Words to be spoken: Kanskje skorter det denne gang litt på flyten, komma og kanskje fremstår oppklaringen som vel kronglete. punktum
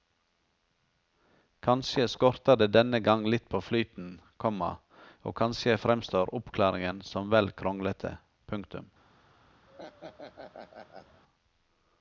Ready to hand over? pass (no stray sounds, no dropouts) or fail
fail